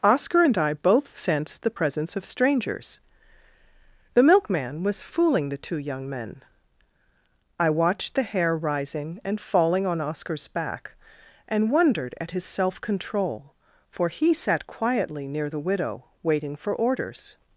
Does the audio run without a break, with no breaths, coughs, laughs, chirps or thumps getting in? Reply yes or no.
yes